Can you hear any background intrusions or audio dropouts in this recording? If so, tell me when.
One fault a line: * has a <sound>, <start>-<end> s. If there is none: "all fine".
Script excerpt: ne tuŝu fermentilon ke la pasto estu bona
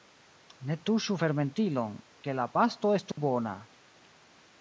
* has a dropout, 3.1-3.2 s